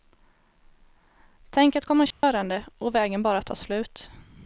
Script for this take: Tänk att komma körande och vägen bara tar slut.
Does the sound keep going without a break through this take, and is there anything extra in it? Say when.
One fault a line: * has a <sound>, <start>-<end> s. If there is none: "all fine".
* has a dropout, 2.1-2.2 s